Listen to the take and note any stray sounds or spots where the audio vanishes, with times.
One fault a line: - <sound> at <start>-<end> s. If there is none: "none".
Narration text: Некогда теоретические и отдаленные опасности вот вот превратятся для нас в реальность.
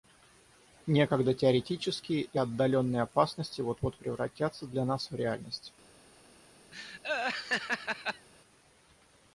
- laugh at 6.7-8.3 s